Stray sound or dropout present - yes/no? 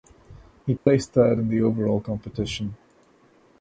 yes